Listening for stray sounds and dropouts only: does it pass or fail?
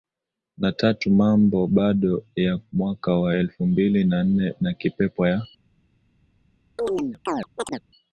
fail